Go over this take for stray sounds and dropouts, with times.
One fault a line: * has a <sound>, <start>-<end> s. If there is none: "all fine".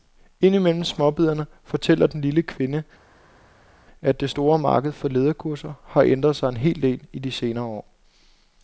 all fine